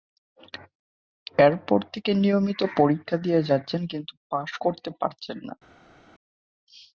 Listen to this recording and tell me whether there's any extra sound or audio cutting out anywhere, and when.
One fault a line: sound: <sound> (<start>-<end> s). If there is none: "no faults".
no faults